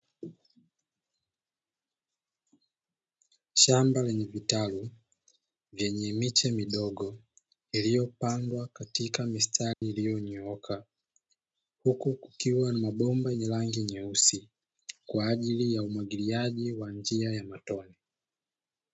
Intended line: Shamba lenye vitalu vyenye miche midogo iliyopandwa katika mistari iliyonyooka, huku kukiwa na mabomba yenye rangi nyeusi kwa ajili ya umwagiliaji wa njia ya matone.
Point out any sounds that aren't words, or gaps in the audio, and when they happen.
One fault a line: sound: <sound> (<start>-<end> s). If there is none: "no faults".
sound: dropout (9.7-9.8 s)